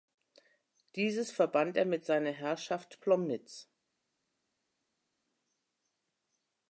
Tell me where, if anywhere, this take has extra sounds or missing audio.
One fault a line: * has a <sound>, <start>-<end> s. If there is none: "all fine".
all fine